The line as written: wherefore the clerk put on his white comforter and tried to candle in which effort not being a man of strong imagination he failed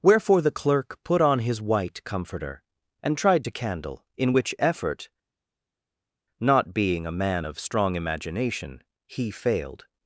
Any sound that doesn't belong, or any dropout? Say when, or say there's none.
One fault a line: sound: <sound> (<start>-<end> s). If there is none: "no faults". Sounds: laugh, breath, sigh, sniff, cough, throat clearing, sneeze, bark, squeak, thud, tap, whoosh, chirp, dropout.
no faults